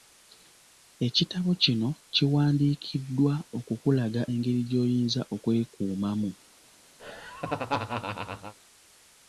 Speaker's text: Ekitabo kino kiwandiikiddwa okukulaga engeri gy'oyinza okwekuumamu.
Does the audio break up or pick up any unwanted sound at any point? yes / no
yes